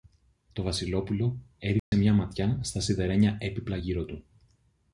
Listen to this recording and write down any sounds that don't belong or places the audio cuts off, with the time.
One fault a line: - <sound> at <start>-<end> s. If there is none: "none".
- dropout at 1.8-1.9 s